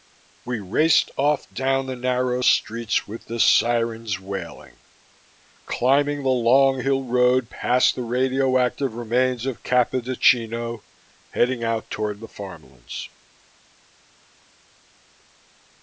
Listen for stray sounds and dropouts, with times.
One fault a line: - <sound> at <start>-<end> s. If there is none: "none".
none